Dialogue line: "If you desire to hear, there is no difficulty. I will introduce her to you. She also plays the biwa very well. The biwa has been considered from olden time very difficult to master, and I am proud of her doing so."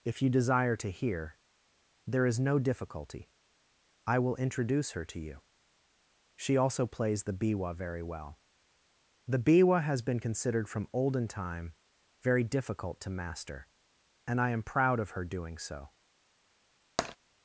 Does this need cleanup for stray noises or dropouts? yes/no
yes